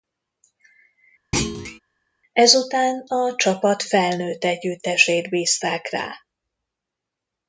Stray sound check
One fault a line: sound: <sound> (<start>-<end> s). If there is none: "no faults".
sound: thud (1.3-1.8 s)